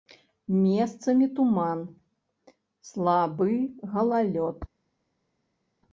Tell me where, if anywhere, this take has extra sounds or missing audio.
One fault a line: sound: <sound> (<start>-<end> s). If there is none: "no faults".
no faults